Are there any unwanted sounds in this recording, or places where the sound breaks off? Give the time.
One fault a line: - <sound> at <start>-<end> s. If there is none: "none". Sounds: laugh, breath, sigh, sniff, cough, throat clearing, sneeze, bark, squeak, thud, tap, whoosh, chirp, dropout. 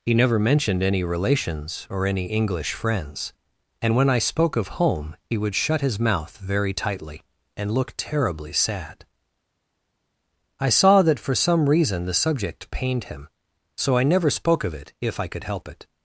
none